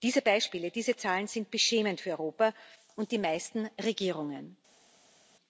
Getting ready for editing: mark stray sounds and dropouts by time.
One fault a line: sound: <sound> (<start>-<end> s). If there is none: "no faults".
no faults